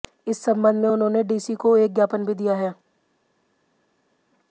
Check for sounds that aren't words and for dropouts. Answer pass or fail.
pass